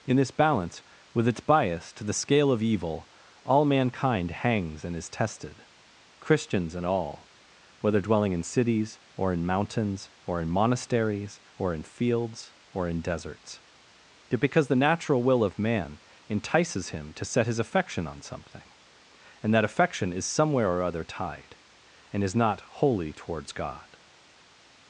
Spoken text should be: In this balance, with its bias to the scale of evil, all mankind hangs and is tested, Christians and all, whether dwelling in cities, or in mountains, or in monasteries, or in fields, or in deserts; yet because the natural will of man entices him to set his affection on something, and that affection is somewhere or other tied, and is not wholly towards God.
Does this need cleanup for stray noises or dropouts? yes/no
no